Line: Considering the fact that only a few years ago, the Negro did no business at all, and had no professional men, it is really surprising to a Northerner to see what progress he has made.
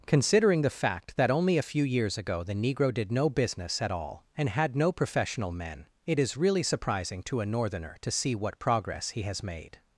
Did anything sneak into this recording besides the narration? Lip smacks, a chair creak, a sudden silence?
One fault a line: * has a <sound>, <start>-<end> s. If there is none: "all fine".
all fine